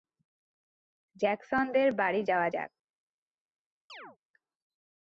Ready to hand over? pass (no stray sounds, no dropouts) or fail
fail